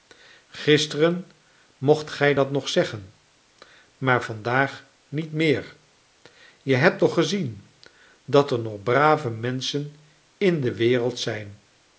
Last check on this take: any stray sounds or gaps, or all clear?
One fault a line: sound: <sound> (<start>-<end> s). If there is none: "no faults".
no faults